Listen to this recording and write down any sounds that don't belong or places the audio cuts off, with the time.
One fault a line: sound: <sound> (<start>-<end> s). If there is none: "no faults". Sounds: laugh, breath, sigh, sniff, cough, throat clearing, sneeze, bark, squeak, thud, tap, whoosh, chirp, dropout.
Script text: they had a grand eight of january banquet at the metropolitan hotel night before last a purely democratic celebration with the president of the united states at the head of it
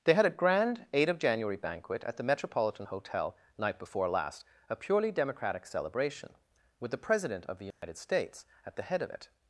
sound: dropout (7.7-7.8 s)